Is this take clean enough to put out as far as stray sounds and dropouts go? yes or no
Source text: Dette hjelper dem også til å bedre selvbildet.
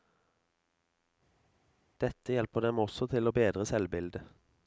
yes